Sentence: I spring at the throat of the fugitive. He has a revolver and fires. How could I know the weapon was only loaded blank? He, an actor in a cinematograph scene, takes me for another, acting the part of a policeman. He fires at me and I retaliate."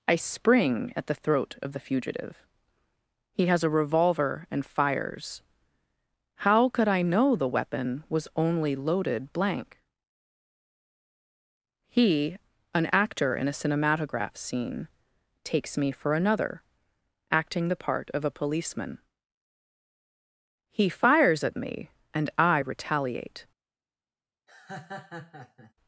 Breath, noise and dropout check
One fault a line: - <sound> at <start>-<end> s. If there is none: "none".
- laugh at 24.5-25.7 s